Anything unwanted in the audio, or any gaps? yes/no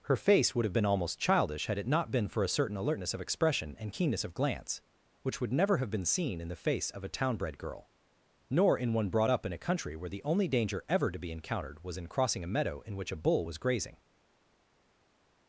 no